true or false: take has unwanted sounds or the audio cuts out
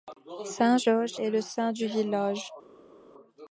false